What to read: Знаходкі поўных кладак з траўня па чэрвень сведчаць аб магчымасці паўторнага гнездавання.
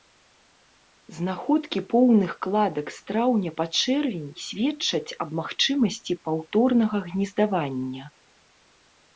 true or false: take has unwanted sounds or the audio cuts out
false